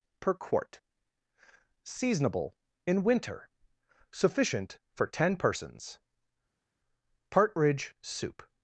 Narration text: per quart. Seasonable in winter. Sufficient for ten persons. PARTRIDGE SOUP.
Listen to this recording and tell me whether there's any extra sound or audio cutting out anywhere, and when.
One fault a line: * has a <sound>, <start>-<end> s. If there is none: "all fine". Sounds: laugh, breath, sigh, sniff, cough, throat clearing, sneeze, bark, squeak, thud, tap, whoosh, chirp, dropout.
all fine